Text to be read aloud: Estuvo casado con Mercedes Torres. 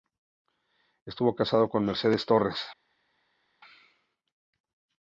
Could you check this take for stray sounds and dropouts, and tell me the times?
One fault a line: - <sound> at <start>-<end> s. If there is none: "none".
none